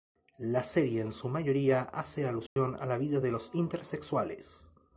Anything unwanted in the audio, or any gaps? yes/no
yes